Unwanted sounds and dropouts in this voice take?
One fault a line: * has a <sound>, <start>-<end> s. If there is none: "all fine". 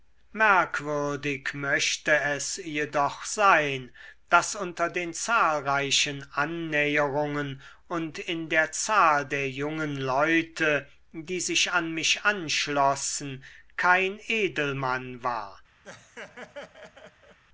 * has a laugh, 15.8-17.4 s